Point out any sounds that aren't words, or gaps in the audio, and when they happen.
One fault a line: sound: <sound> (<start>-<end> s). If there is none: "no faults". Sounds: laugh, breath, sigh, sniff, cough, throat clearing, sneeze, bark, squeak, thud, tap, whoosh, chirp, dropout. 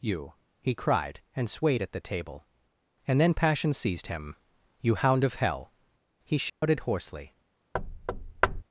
sound: dropout (6.5-6.6 s)
sound: thud (7.7-8.6 s)